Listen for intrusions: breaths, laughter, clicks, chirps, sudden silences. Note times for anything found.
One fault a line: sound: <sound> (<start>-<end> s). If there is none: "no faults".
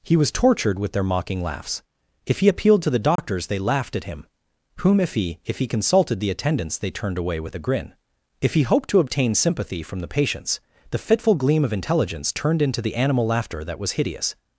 sound: dropout (3.2-3.2 s)